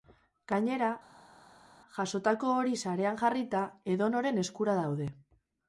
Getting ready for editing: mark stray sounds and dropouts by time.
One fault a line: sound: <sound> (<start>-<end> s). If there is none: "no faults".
no faults